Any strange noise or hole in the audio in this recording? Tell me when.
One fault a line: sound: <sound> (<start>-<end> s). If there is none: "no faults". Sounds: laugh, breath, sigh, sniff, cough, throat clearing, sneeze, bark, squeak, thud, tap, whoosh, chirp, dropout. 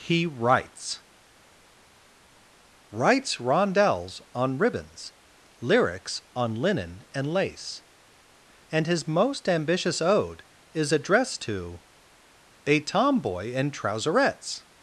no faults